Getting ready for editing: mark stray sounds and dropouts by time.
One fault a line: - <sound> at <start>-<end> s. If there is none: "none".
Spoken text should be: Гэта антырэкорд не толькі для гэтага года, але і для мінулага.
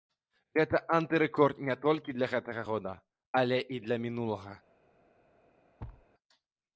- thud at 5.8-6.1 s